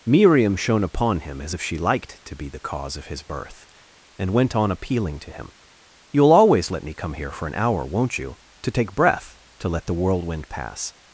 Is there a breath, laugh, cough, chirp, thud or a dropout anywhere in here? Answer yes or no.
no